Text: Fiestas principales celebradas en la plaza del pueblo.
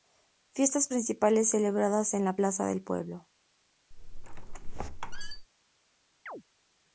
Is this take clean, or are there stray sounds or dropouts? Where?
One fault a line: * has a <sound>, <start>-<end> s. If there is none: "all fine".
* has a squeak, 3.9-5.5 s
* has a chirp, 6.3-6.4 s